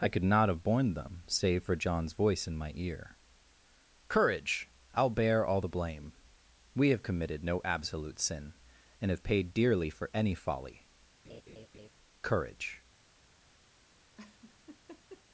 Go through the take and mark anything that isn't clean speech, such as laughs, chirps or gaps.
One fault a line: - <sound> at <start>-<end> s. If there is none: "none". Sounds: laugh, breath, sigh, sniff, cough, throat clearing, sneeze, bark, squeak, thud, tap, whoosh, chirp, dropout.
- laugh at 11.2-11.9 s
- laugh at 14.2-15.2 s